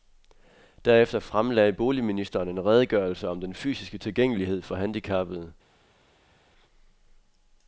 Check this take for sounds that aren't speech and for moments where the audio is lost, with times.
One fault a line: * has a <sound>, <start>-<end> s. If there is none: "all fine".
all fine